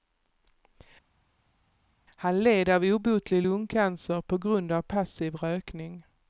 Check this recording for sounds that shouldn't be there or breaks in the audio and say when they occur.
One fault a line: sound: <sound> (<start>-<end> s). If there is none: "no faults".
no faults